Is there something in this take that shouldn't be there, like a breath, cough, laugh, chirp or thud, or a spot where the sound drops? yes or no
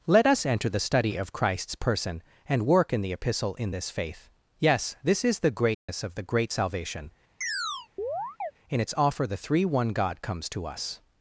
yes